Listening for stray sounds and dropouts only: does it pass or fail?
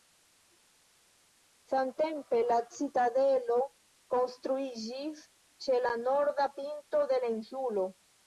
pass